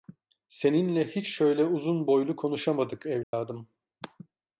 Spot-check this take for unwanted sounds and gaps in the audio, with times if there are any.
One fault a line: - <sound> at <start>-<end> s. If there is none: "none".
- dropout at 3.2-3.3 s